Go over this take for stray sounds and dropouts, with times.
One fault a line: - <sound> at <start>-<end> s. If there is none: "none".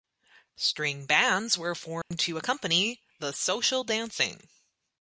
- dropout at 2.0-2.1 s